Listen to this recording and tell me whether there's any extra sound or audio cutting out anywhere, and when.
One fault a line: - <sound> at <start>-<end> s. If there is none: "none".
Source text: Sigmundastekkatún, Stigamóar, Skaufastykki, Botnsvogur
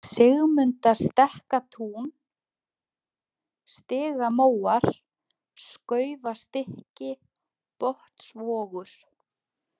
none